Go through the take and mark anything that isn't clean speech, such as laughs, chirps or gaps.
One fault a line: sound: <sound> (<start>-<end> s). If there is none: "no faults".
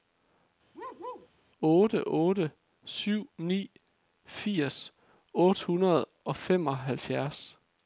sound: bark (0.7-1.3 s)